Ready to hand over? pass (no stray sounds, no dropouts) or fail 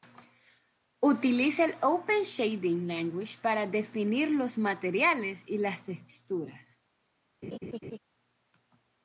fail